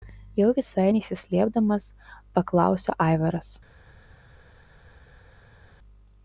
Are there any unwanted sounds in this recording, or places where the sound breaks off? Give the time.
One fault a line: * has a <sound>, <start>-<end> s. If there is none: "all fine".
all fine